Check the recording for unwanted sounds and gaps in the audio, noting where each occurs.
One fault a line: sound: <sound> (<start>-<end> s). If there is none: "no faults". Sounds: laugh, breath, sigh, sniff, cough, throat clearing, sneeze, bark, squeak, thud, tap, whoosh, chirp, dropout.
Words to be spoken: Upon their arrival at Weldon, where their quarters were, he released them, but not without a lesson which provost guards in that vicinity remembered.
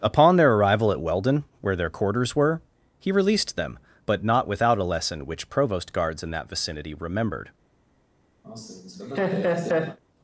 sound: laugh (8.4-10.0 s)